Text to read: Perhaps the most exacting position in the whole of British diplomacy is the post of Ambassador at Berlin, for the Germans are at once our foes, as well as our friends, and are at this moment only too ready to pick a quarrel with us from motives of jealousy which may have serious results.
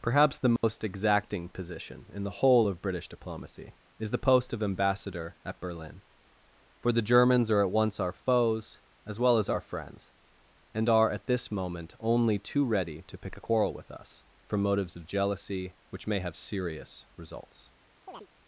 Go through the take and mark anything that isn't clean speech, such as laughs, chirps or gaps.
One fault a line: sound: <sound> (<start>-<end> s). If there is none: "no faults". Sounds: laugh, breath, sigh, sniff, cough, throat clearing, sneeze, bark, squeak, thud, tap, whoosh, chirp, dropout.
sound: dropout (0.6-0.6 s)
sound: chirp (18.1-18.3 s)